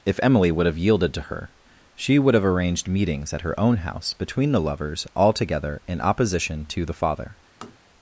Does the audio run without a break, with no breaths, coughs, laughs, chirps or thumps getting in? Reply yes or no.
no